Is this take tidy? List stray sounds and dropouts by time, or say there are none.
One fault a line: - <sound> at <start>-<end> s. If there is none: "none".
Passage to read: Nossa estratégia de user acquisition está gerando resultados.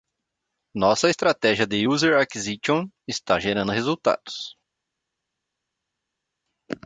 none